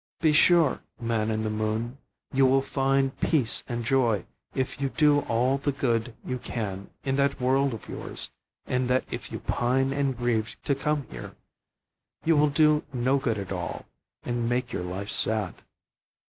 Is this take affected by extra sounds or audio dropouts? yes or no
no